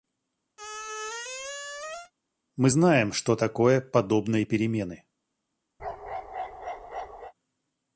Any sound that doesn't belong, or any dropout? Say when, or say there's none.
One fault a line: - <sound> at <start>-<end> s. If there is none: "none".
- squeak at 0.6-2.1 s
- bark at 5.8-7.3 s